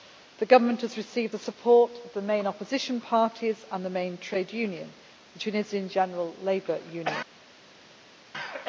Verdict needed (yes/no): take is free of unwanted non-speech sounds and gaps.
yes